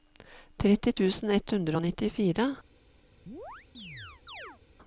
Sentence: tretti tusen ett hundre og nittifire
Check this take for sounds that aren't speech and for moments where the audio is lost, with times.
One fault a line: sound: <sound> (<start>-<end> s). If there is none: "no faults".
sound: chirp (3.3-4.6 s)